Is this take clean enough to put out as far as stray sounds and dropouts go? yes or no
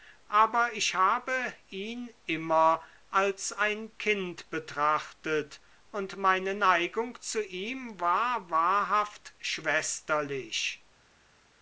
yes